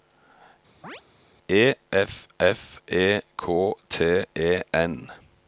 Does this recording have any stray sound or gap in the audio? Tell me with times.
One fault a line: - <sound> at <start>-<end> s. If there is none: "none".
- chirp at 0.8-1.0 s